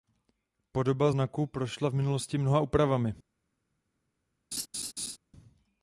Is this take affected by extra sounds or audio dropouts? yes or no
yes